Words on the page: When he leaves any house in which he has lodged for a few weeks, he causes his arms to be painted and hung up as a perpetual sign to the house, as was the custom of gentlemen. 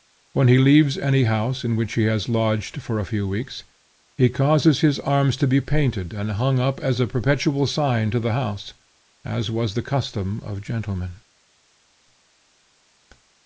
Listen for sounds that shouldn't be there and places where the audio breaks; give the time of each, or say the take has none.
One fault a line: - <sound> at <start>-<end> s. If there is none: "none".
none